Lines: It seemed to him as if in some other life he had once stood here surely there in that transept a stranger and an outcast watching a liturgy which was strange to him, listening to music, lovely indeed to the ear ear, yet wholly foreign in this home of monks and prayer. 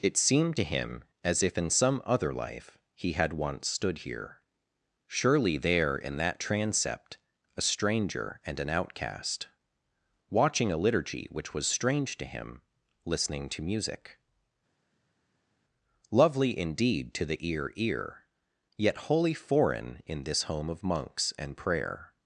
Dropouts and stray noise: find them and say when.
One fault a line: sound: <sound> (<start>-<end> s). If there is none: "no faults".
no faults